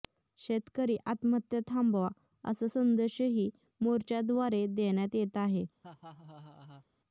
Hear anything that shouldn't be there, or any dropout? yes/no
yes